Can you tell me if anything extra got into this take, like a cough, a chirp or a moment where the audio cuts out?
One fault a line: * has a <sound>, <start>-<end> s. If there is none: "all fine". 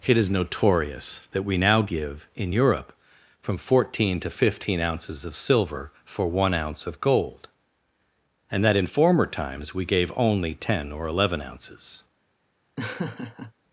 * has a laugh, 12.8-13.5 s